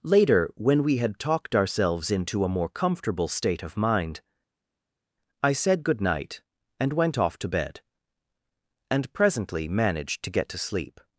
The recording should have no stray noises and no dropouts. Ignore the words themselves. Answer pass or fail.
pass